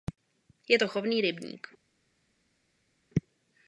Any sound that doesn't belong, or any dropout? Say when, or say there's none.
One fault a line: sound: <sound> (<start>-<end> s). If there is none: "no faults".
no faults